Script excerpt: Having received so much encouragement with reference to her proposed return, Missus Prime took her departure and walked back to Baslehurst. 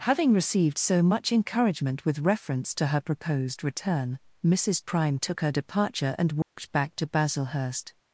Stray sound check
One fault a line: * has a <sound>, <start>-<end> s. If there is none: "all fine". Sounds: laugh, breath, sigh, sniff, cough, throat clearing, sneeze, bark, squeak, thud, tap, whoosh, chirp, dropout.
* has a dropout, 6.4-6.6 s